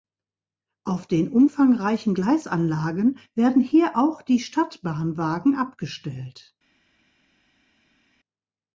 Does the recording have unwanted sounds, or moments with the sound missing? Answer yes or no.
no